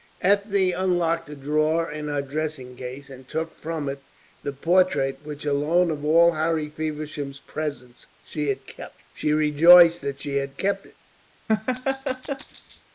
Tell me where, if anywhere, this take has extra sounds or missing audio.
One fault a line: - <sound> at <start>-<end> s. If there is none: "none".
- laugh at 11.5-12.8 s